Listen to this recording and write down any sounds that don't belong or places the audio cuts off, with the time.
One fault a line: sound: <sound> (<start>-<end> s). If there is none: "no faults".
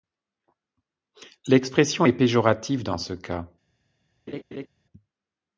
sound: laugh (4.3-4.7 s)